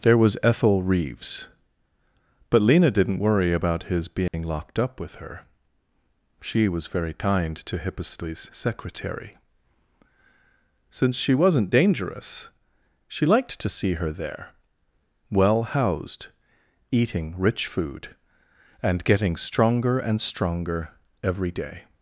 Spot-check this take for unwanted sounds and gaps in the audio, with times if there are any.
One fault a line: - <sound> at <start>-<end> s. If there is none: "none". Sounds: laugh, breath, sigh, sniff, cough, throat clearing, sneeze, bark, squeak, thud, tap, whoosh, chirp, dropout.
- dropout at 4.3-4.3 s